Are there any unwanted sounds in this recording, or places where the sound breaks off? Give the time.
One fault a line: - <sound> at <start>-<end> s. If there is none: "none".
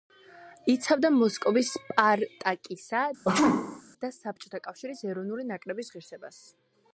- sneeze at 3.2-3.8 s